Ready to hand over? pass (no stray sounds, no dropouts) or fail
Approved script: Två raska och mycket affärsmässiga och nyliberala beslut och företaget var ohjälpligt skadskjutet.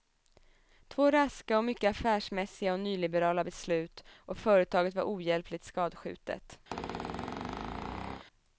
fail